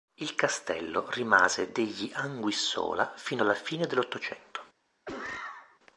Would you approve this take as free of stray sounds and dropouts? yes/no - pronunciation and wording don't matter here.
no